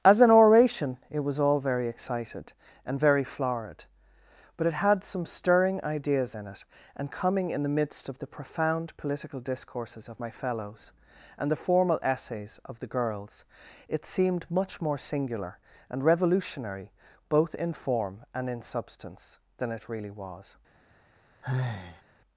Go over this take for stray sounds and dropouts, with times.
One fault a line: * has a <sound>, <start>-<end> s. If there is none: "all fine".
* has a sigh, 21.4-22.0 s